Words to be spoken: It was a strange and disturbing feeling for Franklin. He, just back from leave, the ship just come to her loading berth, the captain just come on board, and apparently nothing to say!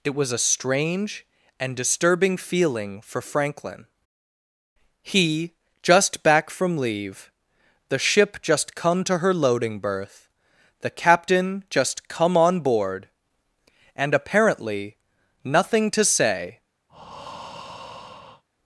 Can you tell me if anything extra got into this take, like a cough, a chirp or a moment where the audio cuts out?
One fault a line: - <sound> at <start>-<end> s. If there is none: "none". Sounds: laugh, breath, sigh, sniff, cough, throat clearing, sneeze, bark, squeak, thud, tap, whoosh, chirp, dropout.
- breath at 16.9-18.4 s